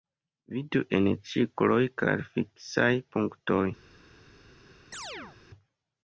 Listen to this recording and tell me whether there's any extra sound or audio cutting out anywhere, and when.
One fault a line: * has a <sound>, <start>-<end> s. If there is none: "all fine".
* has a chirp, 4.9-5.4 s